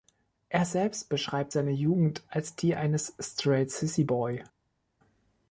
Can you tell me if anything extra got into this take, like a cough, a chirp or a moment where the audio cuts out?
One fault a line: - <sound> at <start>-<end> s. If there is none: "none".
none